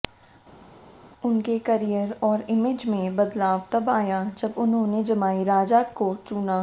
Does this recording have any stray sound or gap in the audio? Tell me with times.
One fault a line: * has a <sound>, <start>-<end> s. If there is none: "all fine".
all fine